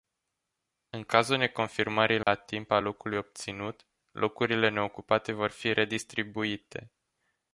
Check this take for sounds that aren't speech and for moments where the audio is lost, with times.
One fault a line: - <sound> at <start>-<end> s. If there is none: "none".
- dropout at 2.2-2.3 s